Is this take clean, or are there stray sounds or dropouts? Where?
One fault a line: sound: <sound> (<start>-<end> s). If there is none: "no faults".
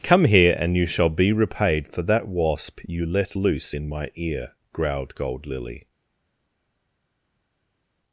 no faults